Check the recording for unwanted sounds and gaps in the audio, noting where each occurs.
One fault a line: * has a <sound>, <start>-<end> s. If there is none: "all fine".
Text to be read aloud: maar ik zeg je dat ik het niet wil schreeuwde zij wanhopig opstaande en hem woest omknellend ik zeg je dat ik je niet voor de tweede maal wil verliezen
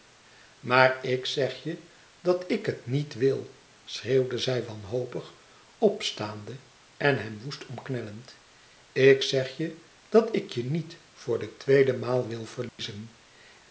* has a dropout, 12.7-12.8 s